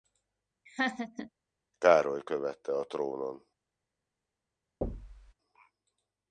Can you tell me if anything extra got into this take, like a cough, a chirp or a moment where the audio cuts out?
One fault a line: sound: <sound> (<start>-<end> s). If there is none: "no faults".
sound: laugh (0.7-1.3 s)
sound: thud (4.8-5.3 s)